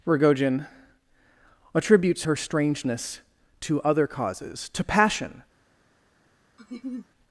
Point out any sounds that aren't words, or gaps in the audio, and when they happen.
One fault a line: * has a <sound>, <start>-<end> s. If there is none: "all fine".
* has a laugh, 6.6-7.1 s